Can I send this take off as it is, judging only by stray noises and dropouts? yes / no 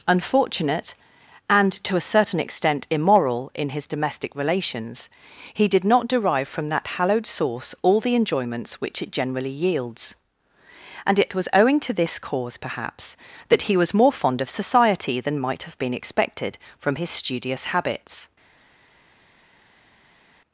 yes